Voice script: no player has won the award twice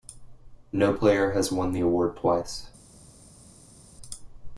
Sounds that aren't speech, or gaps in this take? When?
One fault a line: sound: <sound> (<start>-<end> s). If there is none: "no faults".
no faults